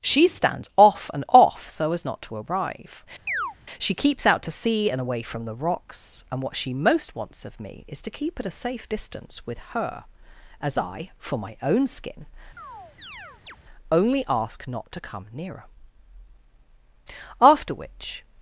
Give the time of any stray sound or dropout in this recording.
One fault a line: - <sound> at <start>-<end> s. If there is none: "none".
- chirp at 3.3-3.6 s
- chirp at 12.6-13.6 s